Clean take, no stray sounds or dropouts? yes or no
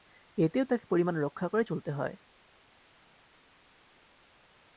yes